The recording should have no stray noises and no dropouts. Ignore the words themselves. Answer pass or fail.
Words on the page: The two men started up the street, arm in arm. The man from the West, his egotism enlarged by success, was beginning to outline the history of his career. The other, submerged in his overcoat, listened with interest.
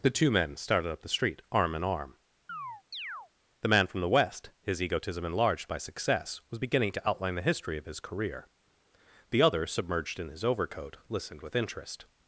fail